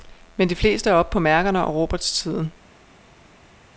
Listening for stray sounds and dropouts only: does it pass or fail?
pass